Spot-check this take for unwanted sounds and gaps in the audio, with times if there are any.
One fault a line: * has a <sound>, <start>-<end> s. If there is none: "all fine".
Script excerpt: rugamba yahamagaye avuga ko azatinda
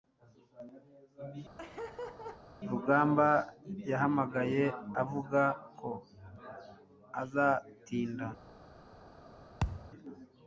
* has a laugh, 1.6-2.4 s
* has a thud, 9.6-9.9 s